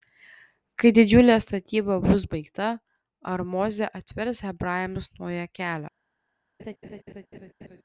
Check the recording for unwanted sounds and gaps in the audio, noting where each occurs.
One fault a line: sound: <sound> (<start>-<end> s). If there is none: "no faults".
sound: laugh (6.6-7.8 s)